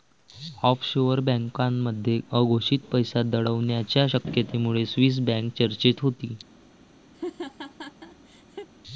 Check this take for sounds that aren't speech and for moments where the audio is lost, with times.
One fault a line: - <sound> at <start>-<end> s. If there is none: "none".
- laugh at 7.1-8.7 s